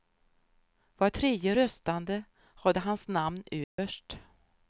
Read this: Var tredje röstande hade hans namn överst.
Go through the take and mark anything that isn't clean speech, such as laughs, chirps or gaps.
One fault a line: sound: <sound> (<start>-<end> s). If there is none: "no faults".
sound: dropout (3.6-3.8 s)